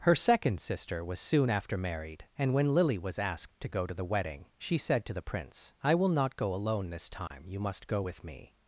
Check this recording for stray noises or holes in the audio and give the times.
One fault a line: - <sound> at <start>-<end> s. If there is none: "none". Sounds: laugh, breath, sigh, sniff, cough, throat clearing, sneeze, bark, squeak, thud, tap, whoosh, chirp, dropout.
- dropout at 7.3-7.3 s